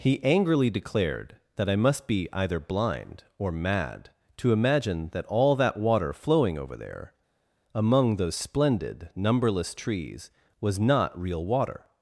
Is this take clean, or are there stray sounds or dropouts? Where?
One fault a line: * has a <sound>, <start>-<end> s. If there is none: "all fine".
all fine